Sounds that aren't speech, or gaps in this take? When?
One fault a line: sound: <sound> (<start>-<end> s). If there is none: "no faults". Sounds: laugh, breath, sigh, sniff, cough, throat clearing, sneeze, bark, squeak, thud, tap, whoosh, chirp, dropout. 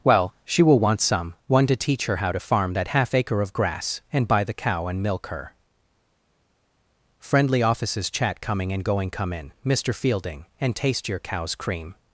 no faults